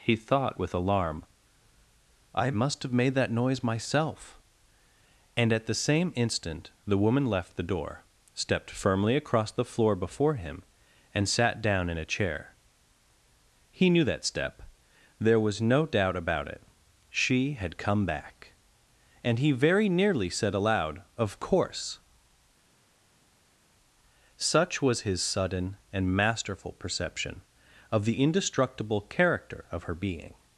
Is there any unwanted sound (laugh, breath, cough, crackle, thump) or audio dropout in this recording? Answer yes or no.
no